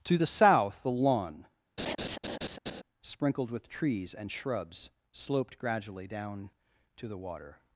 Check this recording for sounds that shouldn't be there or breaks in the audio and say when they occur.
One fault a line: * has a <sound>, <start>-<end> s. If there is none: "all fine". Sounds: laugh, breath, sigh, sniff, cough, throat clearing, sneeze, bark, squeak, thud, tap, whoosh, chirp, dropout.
* has a laugh, 1.8-2.8 s